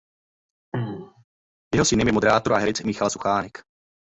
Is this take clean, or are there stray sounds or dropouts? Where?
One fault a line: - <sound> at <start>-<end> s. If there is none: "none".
- throat clearing at 0.7-1.2 s